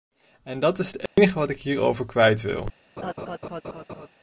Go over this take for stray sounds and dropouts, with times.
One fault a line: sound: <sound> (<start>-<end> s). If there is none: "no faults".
sound: dropout (1.1-1.2 s)
sound: laugh (3.0-4.1 s)